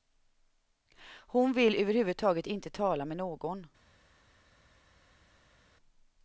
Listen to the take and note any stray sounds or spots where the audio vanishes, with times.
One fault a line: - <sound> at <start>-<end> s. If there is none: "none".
none